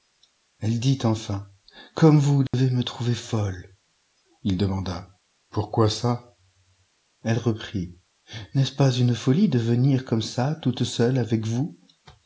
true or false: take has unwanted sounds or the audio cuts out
true